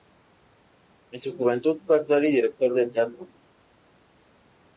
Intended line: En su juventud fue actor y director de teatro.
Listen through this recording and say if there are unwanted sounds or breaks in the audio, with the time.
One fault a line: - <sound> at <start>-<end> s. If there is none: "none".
none